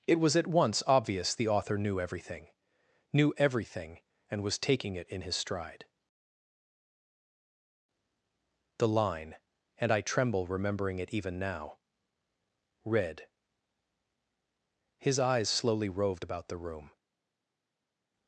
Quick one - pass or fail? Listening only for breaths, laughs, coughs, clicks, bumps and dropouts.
pass